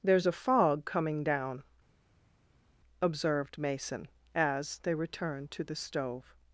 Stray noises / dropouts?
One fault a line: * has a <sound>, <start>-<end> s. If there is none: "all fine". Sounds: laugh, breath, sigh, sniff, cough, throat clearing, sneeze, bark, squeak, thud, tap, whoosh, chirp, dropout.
all fine